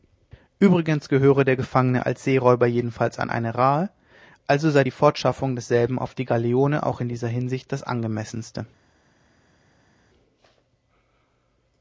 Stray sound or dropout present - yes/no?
no